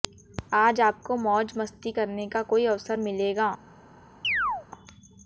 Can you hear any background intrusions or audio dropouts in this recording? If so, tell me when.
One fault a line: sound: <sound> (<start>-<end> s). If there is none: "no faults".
sound: chirp (4.2-4.7 s)